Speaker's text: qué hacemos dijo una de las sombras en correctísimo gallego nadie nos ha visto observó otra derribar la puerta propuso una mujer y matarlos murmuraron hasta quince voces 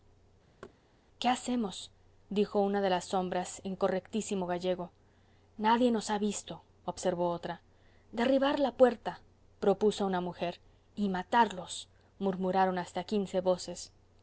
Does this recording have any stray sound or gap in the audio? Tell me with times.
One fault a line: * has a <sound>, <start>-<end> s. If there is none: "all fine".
* has a thud, 0.6-0.8 s